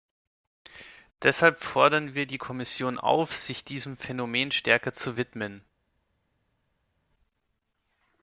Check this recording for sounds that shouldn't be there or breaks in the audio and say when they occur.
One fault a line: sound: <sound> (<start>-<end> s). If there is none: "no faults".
no faults